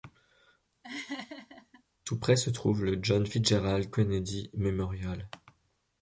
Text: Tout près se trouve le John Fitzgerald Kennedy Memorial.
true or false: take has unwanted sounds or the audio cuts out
true